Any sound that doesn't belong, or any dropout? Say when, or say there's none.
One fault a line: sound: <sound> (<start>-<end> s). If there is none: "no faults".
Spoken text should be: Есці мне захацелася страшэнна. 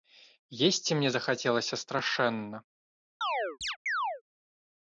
sound: chirp (3.2-4.2 s)